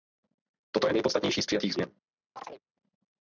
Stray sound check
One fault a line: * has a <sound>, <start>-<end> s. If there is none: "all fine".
* has a chirp, 2.4-2.6 s